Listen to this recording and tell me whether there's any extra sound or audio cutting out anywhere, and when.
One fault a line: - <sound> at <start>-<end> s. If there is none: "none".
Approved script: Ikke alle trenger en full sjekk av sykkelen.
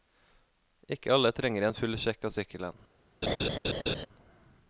- laugh at 3.2-4.1 s